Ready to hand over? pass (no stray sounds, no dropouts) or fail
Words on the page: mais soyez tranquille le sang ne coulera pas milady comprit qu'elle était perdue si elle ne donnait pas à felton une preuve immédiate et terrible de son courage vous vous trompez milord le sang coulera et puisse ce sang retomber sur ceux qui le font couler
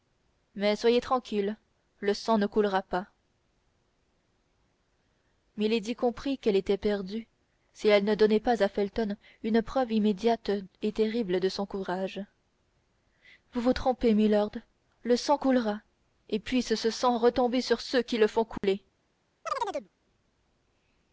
fail